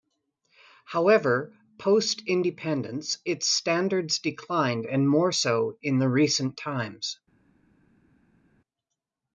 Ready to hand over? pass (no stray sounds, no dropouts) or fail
pass